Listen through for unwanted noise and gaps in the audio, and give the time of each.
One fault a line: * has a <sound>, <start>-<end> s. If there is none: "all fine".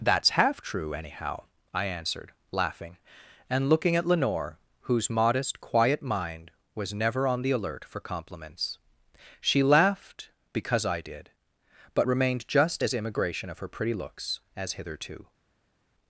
all fine